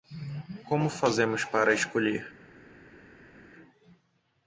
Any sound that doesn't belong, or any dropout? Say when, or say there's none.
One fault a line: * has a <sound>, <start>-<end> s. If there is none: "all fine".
all fine